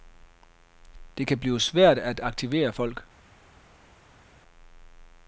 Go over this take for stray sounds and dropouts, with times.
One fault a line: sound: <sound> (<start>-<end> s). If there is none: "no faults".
no faults